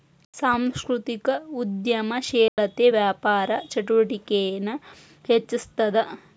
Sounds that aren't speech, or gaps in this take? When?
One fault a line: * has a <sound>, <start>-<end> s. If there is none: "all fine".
* has a dropout, 2.5-2.6 s